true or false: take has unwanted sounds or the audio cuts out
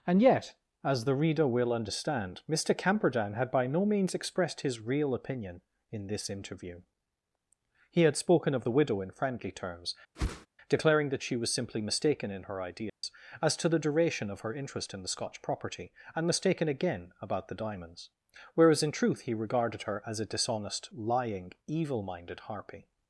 true